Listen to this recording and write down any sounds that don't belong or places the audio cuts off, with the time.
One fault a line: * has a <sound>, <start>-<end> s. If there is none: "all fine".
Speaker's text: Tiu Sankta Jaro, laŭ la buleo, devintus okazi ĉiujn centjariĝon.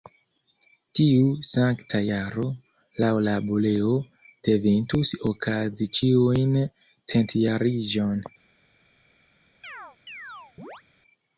* has a chirp, 9.6-10.8 s